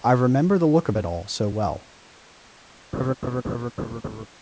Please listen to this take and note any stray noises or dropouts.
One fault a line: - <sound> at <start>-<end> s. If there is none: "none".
- laugh at 2.9-4.3 s